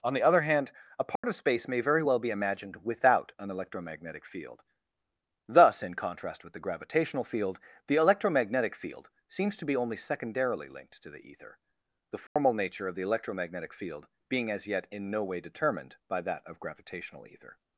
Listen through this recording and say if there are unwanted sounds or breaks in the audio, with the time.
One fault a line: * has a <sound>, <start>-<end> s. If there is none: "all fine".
* has a dropout, 1.2-1.2 s
* has a dropout, 12.3-12.4 s